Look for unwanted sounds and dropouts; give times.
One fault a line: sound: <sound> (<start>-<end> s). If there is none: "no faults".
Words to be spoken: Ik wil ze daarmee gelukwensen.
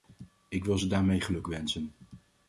no faults